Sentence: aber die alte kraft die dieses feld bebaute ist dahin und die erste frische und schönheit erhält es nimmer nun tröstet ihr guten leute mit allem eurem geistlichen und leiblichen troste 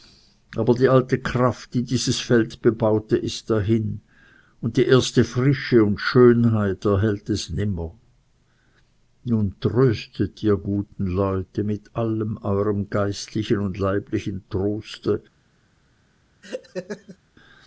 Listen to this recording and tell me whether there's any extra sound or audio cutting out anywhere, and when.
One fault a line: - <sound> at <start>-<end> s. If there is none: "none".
- laugh at 16.4-17.2 s